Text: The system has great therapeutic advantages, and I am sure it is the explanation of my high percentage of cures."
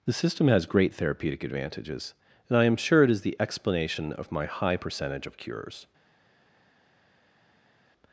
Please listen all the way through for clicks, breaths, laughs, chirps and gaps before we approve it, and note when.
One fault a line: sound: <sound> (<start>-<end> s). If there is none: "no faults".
no faults